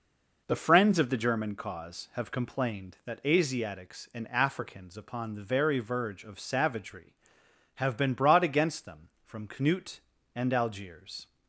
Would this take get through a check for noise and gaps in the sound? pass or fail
pass